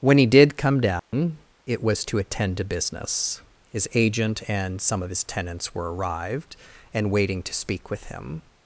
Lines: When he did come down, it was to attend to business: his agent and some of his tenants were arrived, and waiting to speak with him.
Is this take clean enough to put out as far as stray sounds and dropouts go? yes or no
no